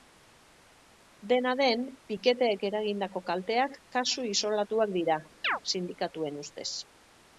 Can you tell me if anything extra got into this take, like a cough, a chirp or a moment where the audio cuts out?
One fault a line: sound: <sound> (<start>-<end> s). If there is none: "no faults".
sound: chirp (5.4-5.6 s)